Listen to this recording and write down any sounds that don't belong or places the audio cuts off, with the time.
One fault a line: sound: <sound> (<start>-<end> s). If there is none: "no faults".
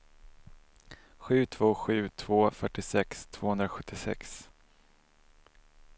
no faults